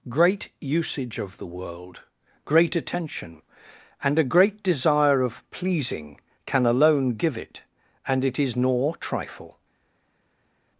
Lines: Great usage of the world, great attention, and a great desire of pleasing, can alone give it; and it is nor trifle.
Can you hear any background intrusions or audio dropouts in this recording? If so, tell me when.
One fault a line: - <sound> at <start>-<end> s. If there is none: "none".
none